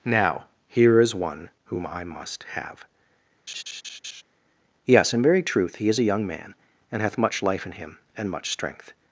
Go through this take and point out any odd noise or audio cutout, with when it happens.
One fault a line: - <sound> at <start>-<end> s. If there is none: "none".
- laugh at 3.5-4.2 s